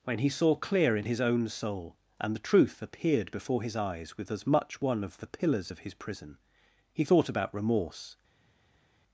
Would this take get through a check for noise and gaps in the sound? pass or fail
pass